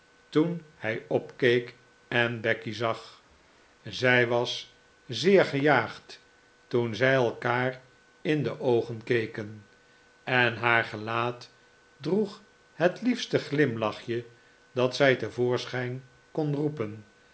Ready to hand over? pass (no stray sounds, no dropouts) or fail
pass